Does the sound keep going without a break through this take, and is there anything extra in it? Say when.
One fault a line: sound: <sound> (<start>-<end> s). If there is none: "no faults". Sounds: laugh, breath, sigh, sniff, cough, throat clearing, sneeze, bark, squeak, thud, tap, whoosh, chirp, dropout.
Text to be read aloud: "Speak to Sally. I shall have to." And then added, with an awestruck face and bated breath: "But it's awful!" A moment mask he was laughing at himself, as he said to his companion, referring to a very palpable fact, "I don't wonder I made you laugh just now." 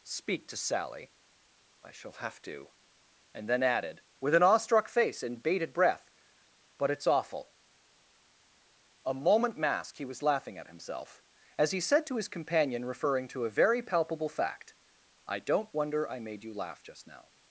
no faults